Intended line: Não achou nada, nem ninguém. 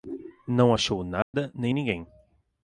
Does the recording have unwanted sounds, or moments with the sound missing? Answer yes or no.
yes